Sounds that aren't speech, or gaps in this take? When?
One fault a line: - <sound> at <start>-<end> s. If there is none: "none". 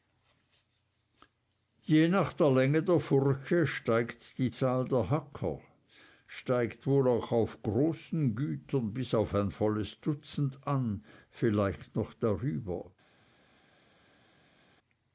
none